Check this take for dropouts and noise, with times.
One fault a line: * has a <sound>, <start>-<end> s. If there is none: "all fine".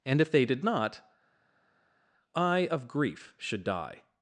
all fine